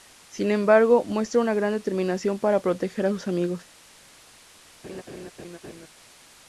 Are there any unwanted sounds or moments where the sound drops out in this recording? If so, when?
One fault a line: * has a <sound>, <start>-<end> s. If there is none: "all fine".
* has a laugh, 4.8-5.9 s